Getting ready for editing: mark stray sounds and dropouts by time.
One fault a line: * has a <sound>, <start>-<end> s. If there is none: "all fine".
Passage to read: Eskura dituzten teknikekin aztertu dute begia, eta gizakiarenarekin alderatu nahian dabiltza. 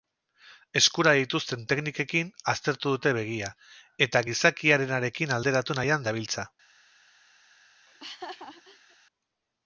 * has a laugh, 7.9-9.0 s